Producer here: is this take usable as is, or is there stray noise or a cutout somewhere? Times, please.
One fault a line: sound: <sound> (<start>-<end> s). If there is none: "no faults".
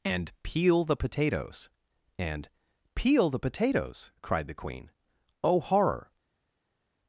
no faults